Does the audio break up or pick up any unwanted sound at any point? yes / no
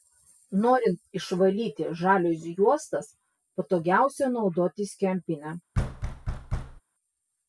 yes